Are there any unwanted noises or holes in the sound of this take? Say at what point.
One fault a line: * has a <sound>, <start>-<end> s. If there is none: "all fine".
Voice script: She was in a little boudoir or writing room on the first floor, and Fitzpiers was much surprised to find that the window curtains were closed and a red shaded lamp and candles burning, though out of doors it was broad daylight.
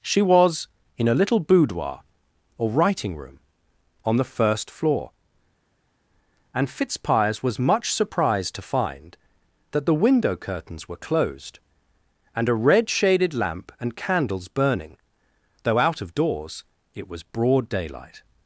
all fine